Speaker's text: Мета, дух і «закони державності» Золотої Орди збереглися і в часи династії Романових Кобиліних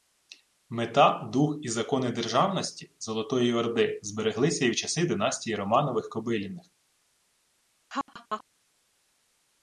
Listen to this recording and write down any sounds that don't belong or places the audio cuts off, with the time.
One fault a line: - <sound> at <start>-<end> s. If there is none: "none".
- laugh at 7.9-8.4 s